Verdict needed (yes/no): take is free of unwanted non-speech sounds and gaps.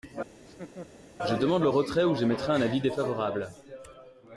no